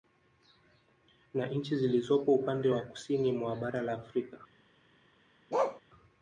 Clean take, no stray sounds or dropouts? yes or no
no